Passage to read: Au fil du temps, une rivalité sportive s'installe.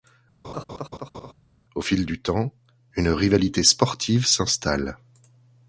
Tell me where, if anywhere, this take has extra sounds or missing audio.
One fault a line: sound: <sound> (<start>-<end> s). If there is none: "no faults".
sound: laugh (0.4-1.3 s)